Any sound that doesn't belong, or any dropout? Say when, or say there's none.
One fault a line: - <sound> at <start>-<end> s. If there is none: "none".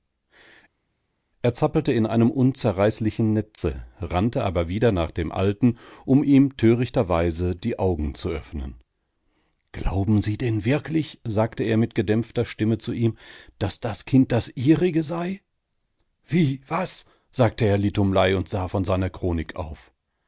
none